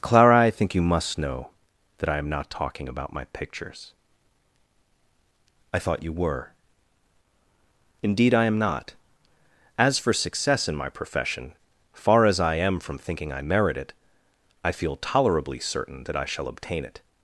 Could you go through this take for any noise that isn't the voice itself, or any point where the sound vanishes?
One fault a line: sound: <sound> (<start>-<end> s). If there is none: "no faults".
no faults